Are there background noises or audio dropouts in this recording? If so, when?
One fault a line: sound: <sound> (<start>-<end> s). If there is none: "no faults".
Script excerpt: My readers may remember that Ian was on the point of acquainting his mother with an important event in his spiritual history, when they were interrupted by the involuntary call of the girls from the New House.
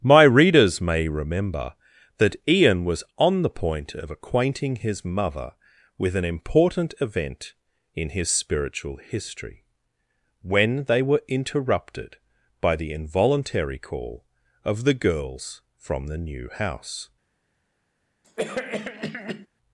sound: cough (18.2-19.5 s)